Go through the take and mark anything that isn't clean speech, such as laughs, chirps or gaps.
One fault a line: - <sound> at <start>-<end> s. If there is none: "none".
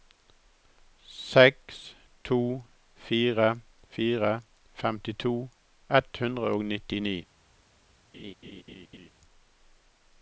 - laugh at 8.1-9.1 s